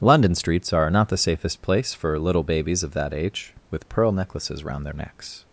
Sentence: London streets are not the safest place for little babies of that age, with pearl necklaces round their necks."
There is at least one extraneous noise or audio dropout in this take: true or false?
false